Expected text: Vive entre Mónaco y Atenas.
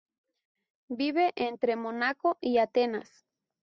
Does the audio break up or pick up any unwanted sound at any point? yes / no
no